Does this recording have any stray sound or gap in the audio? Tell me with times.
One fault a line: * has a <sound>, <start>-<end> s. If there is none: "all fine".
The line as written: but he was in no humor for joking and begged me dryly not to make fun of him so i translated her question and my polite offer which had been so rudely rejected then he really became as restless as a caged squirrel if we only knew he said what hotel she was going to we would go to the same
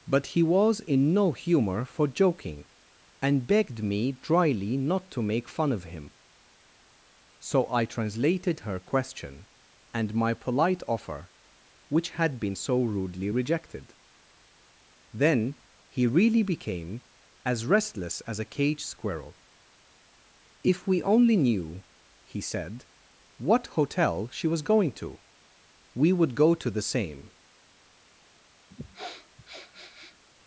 * has a sniff, 28.7-30.2 s